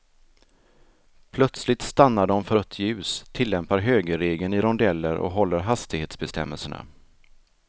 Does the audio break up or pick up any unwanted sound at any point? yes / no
no